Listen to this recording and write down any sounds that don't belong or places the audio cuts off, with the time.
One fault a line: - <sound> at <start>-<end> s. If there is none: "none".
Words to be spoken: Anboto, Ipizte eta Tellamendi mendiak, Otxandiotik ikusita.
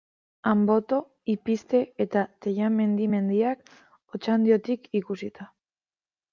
none